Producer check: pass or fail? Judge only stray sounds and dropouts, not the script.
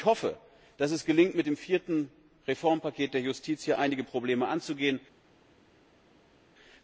pass